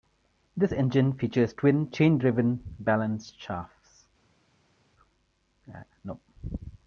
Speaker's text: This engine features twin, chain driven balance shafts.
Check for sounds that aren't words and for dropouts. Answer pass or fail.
pass